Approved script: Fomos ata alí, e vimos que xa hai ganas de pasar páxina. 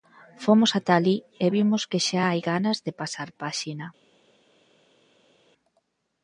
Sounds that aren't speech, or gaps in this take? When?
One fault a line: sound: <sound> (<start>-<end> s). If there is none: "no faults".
no faults